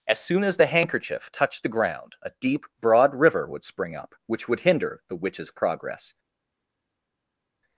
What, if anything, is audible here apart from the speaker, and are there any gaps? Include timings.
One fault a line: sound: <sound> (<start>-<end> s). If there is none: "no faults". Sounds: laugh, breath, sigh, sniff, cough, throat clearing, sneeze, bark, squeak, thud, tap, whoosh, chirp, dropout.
no faults